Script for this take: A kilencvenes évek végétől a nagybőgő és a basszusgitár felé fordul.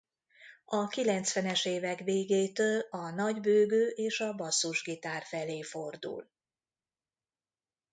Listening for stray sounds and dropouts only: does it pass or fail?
pass